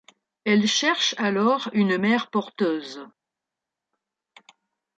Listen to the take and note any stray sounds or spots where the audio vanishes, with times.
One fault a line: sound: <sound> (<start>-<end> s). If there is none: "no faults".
no faults